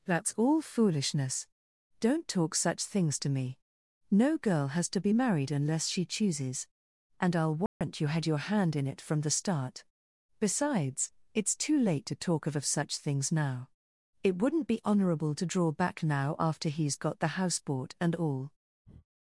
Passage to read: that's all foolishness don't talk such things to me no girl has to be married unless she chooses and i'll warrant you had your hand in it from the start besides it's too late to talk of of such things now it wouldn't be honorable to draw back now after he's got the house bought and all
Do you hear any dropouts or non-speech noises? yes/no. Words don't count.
yes